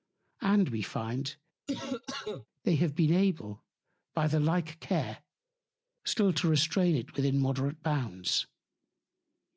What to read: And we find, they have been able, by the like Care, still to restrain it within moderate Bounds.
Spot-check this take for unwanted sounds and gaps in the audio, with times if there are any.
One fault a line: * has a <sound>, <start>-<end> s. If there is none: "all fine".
* has a cough, 1.7-2.5 s